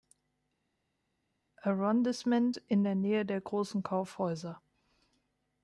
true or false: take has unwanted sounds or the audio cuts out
false